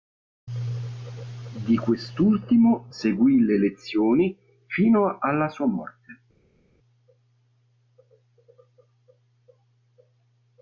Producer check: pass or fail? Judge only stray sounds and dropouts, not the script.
pass